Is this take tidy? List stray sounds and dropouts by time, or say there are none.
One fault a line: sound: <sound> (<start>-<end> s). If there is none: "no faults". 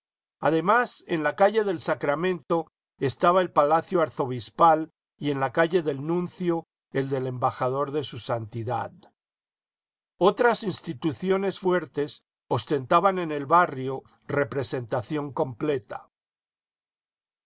no faults